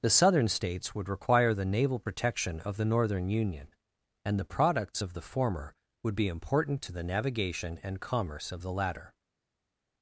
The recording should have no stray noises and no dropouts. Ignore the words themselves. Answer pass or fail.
pass